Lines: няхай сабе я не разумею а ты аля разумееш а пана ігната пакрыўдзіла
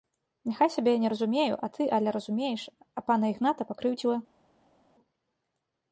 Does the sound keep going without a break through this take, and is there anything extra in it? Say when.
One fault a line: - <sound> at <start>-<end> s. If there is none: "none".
none